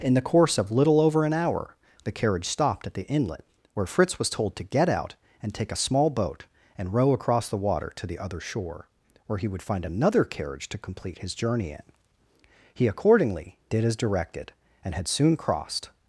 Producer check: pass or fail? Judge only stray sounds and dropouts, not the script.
pass